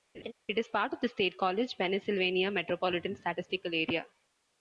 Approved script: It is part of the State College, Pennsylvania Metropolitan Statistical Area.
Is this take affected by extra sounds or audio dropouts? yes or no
yes